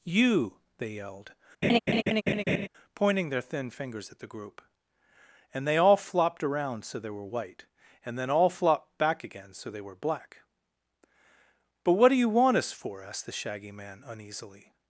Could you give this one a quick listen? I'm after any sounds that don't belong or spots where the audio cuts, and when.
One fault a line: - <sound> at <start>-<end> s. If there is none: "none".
- laugh at 1.6-2.7 s